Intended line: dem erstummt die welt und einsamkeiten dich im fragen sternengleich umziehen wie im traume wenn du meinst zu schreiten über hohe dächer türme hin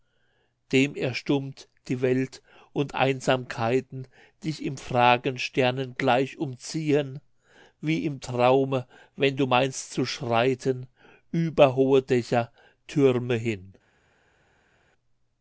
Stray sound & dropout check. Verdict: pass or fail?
pass